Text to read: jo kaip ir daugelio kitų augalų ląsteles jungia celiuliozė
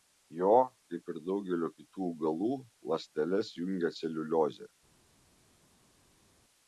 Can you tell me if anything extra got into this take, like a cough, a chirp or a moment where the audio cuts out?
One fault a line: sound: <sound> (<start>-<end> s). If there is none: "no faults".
no faults